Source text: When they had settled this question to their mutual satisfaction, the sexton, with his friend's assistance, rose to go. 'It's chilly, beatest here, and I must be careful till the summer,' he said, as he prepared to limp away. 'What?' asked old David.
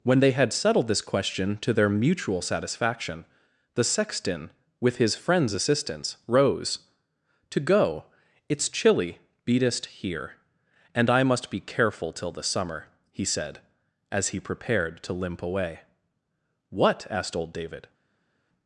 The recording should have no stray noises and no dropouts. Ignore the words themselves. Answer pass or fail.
pass